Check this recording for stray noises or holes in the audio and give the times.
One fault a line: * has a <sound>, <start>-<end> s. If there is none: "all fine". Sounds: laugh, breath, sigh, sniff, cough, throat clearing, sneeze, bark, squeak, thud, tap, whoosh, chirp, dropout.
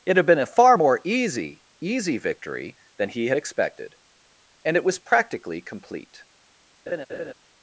* has a laugh, 6.9-7.3 s